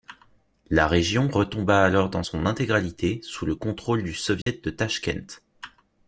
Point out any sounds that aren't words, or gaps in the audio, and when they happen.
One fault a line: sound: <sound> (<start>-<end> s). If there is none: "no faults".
sound: dropout (4.4-4.5 s)